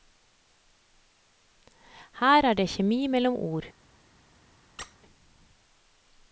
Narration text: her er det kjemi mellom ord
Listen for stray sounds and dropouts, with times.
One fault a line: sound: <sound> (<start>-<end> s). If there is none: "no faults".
sound: squeak (4.8-5.0 s)